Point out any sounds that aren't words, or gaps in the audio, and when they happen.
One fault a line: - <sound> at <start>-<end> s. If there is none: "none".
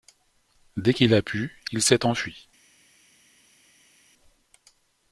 none